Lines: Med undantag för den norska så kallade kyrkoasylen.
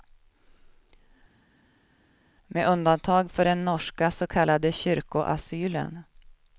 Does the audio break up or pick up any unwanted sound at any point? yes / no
no